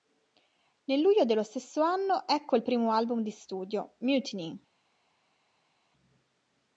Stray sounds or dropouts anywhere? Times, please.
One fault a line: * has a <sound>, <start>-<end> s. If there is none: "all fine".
all fine